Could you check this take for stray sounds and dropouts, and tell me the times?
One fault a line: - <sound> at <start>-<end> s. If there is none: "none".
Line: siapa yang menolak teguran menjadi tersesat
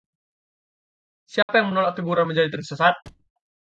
- dropout at 1.4-1.5 s
- thud at 3.1-3.3 s